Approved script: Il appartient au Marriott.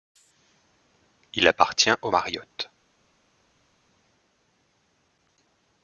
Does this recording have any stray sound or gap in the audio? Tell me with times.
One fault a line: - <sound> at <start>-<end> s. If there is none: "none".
none